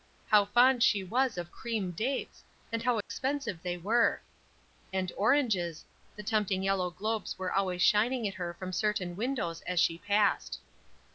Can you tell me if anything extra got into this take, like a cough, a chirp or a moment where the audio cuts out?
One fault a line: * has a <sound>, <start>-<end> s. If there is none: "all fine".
* has a dropout, 3.0-3.1 s